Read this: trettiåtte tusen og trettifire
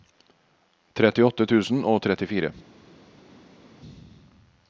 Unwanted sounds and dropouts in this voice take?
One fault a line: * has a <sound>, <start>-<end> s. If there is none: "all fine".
all fine